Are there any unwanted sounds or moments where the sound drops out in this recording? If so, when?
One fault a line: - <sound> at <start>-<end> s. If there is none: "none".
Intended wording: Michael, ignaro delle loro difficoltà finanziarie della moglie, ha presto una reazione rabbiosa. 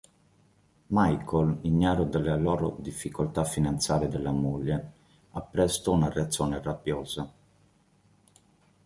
none